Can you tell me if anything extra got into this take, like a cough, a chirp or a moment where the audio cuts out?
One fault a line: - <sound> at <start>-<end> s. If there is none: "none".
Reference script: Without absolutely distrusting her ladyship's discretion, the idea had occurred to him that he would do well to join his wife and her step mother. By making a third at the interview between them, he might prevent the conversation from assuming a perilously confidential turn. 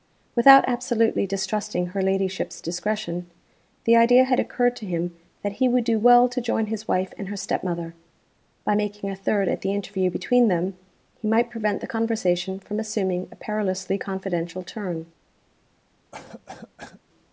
- cough at 16.1-17.0 s